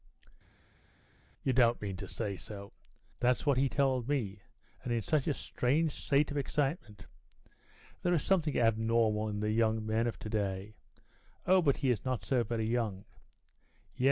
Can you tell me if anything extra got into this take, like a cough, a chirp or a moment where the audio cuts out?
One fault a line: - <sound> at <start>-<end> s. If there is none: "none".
none